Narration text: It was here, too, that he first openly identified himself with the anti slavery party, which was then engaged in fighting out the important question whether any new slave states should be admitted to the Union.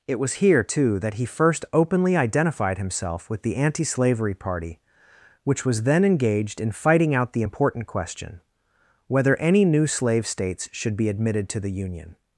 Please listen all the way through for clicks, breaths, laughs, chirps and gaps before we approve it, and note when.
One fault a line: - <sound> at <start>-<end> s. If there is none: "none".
none